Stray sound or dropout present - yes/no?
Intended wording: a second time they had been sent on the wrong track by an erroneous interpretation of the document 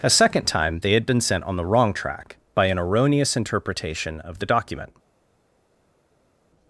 no